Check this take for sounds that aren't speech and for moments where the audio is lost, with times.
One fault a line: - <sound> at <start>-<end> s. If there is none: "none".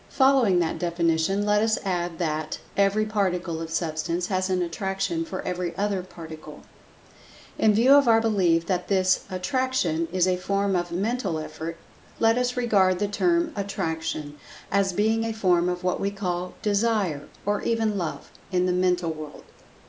none